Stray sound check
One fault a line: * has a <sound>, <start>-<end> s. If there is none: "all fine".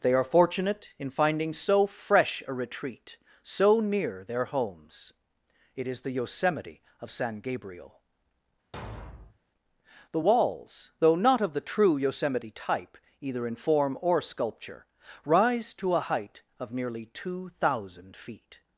* has a thud, 8.7-9.4 s